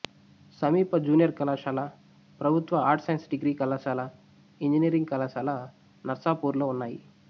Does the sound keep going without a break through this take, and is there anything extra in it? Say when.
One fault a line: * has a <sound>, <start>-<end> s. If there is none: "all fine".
all fine